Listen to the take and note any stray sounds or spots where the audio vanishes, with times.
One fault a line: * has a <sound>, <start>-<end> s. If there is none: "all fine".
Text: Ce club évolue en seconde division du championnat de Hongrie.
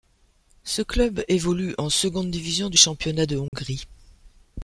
* has a dropout, 3.5-3.5 s